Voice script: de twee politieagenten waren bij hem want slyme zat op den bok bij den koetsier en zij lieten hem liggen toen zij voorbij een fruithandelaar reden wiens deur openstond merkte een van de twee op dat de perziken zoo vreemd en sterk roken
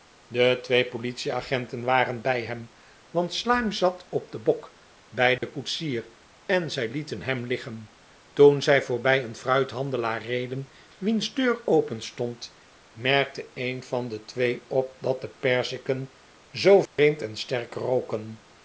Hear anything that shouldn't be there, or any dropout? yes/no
yes